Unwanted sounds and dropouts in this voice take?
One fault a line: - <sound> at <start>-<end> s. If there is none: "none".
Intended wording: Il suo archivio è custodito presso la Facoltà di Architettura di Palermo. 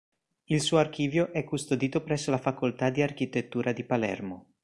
none